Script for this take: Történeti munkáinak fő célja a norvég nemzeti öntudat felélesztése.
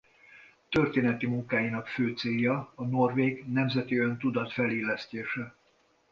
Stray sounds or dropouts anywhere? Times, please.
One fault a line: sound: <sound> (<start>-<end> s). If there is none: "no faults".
no faults